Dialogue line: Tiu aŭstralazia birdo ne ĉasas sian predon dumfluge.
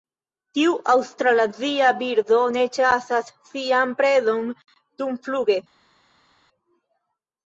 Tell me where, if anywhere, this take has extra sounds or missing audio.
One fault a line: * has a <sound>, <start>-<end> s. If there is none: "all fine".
all fine